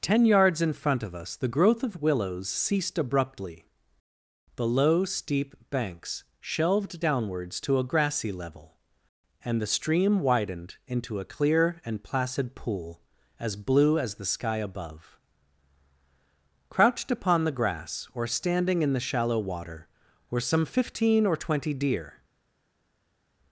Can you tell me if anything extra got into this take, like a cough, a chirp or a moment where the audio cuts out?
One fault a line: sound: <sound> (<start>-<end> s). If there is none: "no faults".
no faults